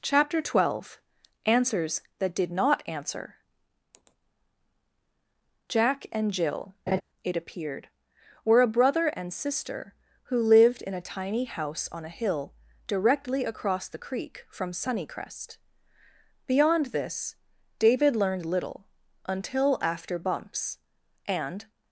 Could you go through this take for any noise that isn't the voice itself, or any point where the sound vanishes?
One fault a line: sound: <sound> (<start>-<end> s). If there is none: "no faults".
sound: laugh (6.9-7.0 s)